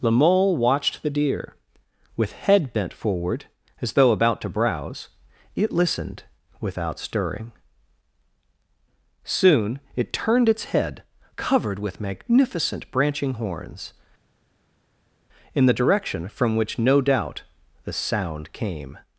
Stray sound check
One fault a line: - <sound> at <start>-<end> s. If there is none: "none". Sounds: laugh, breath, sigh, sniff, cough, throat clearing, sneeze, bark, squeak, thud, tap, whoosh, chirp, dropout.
none